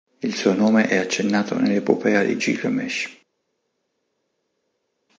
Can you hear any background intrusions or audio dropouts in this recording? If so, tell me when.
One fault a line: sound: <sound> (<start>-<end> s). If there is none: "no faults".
no faults